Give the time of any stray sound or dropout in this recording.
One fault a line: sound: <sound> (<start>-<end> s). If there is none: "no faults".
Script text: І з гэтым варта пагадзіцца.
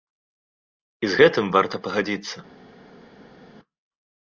no faults